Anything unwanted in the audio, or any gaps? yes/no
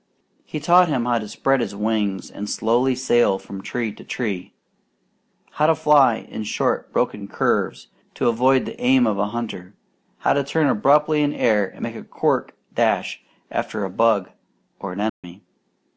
yes